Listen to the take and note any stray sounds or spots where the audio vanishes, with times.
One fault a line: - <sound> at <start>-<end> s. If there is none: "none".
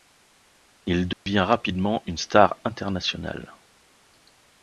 - dropout at 1.1-1.3 s